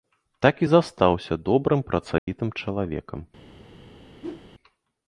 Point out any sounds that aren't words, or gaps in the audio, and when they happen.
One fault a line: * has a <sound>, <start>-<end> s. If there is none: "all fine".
* has a dropout, 2.2-2.3 s
* has a whoosh, 4.2-4.5 s